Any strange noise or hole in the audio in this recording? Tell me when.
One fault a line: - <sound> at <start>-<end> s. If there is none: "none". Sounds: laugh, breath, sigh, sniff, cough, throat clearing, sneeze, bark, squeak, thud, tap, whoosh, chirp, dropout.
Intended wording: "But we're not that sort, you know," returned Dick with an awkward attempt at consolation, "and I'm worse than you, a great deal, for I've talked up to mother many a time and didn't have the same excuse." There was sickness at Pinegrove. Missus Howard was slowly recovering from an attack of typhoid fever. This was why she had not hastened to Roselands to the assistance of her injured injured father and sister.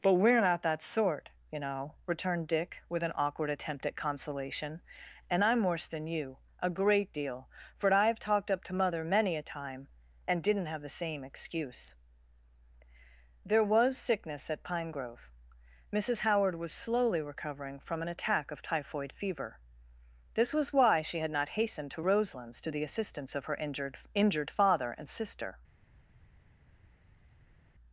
none